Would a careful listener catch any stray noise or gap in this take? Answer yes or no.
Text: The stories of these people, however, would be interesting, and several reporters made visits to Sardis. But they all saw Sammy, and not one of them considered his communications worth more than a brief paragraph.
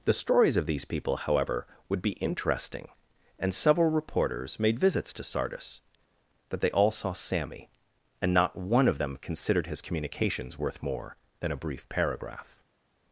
no